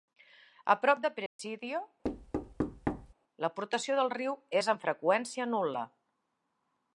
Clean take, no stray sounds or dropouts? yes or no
no